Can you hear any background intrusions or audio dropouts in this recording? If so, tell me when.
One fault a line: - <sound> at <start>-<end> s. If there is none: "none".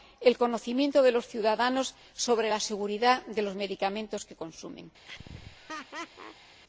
- laugh at 5.1-6.6 s